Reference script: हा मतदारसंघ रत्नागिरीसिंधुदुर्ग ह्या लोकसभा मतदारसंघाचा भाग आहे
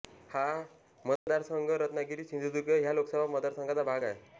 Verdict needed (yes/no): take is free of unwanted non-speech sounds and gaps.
no